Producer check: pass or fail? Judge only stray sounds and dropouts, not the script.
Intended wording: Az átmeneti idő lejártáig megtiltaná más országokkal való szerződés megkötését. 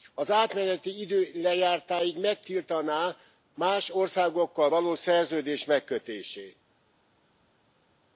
pass